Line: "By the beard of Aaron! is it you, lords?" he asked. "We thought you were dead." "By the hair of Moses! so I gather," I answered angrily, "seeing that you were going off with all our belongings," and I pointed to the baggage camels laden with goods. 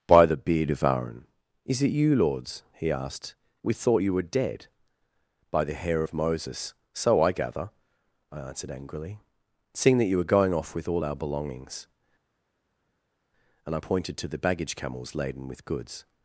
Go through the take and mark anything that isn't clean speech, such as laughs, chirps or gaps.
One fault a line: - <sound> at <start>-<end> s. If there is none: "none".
none